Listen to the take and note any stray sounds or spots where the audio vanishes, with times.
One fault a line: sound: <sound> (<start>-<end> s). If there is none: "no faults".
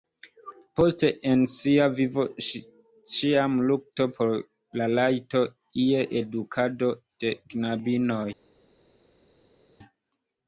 no faults